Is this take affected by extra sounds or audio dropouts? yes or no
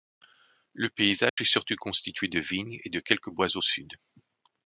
yes